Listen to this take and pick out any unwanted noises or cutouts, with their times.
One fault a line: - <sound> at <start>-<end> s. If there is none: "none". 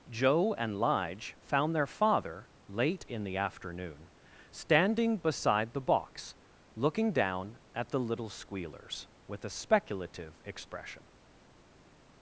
none